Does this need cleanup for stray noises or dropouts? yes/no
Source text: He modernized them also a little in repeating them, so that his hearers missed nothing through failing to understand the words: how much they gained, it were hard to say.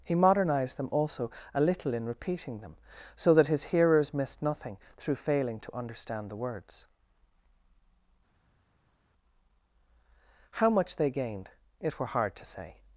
no